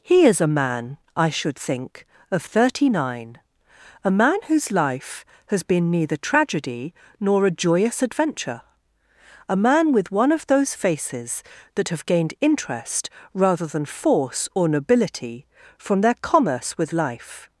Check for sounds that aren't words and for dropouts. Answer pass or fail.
pass